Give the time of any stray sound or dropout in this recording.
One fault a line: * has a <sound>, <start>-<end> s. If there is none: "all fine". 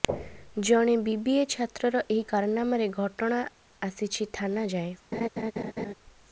* has a laugh, 5.1-5.9 s